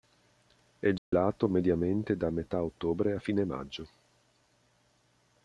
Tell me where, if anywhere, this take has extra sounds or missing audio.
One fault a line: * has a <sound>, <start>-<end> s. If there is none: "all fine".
* has a dropout, 1.0-1.1 s